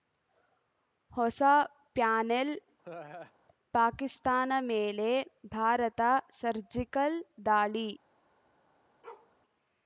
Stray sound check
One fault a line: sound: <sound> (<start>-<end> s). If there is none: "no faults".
sound: laugh (2.8-3.3 s)
sound: bark (9.0-9.3 s)